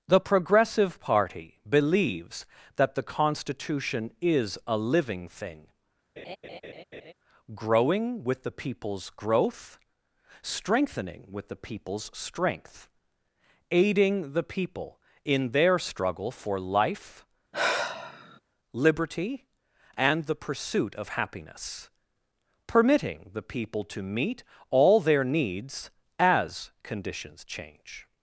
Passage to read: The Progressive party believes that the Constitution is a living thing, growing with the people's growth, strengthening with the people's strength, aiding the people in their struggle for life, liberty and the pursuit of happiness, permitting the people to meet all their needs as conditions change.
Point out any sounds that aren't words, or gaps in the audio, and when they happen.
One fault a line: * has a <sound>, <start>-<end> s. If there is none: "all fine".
* has a laugh, 6.2-7.1 s
* has a sigh, 17.5-18.4 s